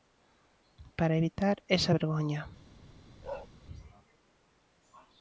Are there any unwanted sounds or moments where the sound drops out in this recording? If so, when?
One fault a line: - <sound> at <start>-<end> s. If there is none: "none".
- bark at 3.2-3.5 s